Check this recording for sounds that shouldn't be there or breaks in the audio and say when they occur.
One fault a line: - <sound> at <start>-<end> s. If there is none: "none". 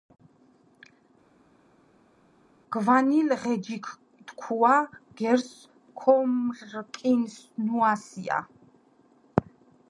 none